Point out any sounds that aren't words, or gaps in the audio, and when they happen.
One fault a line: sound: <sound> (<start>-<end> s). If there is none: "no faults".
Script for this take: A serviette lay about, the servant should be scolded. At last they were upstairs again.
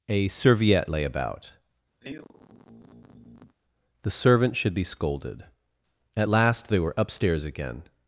sound: sigh (2.0-3.6 s)